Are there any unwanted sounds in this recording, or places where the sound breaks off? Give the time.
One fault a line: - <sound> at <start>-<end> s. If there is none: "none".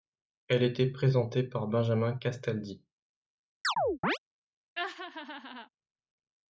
- chirp at 3.6-4.2 s
- laugh at 4.8-5.7 s